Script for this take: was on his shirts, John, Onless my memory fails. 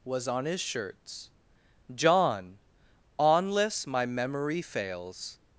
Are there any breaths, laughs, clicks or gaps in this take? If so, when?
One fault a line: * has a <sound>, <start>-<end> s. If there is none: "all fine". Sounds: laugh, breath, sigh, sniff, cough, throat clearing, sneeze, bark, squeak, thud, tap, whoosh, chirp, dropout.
all fine